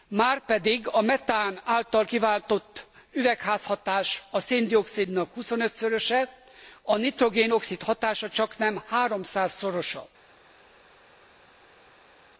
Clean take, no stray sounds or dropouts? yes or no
yes